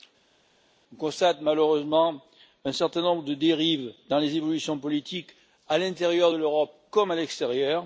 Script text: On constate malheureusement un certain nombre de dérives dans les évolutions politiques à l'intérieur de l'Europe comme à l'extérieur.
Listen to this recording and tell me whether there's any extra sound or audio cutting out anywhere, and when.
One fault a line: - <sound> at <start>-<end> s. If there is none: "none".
none